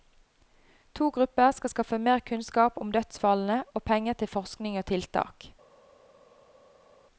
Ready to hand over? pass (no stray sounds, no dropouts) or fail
pass